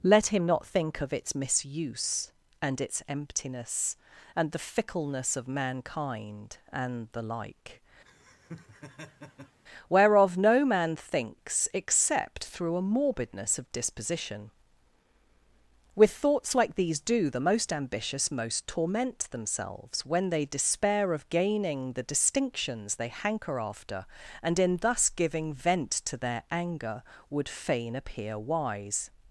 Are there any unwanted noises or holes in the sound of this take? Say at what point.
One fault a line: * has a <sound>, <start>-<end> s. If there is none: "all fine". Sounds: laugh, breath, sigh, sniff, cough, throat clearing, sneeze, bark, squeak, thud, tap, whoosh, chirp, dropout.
* has a laugh, 8.0-9.6 s